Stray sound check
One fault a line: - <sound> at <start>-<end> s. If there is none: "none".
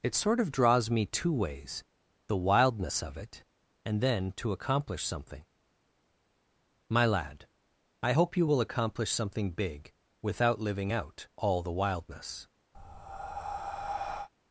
- breath at 12.7-14.3 s